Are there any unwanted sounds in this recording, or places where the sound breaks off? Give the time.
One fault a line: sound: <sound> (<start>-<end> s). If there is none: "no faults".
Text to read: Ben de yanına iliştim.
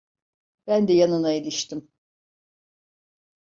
no faults